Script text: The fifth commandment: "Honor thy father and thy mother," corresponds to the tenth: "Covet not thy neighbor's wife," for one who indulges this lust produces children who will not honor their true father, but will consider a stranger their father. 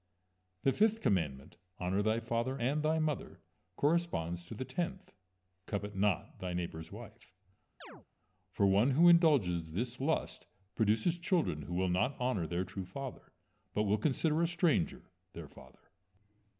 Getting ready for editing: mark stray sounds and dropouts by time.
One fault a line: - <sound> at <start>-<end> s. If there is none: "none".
- chirp at 7.8-8.1 s